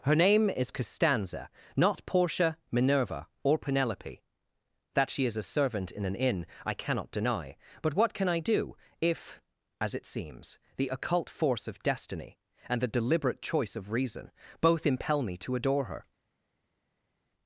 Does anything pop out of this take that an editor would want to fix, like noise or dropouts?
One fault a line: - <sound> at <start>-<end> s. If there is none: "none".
none